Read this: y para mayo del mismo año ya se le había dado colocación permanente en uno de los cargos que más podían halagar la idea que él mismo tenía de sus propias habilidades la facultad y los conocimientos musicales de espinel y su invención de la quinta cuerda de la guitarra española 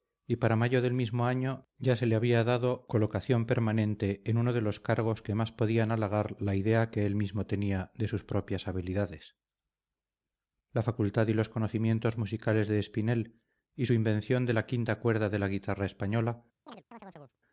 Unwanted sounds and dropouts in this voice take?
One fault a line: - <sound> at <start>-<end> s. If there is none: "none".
- chirp at 16.7-17.4 s